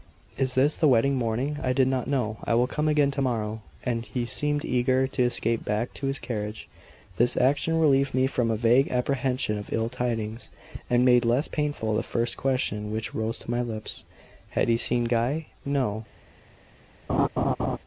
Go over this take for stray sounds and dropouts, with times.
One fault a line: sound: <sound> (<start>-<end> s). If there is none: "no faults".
sound: laugh (17.1-17.8 s)